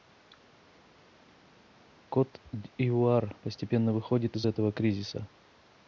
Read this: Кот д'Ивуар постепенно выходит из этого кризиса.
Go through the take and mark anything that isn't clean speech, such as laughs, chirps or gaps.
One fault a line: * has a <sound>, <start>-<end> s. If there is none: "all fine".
all fine